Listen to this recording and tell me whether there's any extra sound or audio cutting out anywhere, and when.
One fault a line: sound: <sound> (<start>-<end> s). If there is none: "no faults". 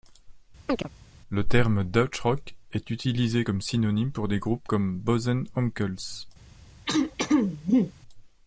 sound: chirp (0.7-0.9 s)
sound: throat clearing (6.9-7.9 s)